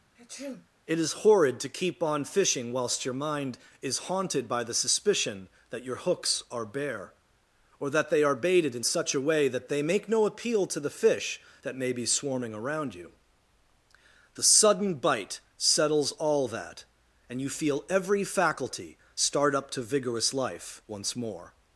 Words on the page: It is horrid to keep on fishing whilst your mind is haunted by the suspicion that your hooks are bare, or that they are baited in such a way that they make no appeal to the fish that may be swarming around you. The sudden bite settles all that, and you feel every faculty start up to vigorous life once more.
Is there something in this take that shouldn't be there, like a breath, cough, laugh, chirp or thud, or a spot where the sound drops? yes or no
yes